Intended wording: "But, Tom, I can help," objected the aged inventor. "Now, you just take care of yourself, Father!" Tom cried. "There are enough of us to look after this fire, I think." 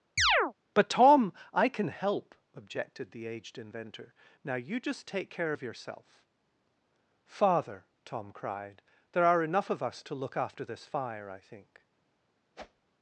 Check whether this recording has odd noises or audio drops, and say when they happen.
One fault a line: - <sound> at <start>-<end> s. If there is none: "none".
- chirp at 0.2-0.5 s
- whoosh at 12.6-12.9 s